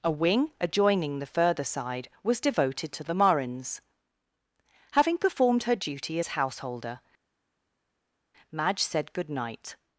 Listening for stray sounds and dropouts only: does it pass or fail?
pass